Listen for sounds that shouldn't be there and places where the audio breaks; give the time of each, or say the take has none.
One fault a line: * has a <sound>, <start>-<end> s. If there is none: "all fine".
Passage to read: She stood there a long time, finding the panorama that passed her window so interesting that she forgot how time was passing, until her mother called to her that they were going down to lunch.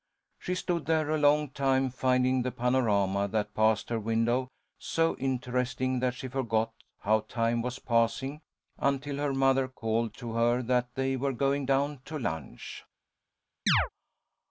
* has a chirp, 13.7-13.9 s